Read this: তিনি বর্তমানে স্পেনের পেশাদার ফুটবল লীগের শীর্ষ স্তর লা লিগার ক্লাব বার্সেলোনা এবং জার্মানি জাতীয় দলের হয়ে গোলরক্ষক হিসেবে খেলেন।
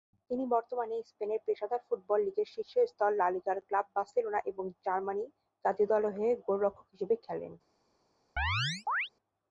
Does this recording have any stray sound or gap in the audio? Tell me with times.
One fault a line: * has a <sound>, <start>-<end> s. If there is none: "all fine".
* has a chirp, 8.4-9.1 s